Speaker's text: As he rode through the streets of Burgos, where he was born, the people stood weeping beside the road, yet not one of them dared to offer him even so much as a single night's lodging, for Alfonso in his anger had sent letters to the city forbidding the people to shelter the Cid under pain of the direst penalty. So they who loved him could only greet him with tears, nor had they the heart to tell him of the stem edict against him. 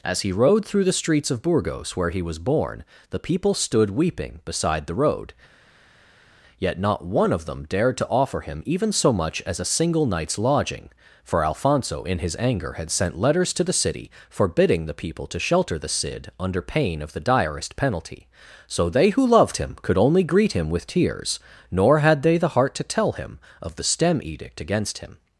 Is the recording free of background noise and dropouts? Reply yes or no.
yes